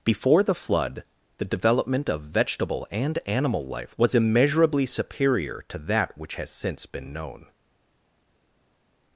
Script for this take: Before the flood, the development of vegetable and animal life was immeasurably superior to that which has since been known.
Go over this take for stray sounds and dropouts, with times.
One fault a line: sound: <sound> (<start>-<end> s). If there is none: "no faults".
no faults